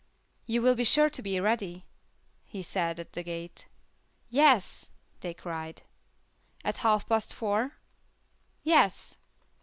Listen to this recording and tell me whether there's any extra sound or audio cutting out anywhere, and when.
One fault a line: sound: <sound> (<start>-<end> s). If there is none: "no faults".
no faults